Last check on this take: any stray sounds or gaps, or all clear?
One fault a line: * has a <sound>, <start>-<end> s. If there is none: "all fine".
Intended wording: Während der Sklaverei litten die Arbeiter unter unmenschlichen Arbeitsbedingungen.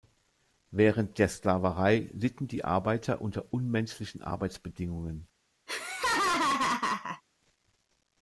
* has a laugh, 5.7-7.2 s